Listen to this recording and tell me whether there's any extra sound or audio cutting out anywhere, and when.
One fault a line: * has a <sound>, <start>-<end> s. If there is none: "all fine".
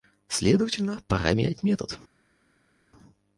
all fine